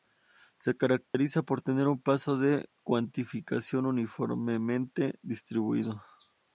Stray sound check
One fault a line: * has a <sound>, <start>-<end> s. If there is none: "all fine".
* has a dropout, 1.1-1.1 s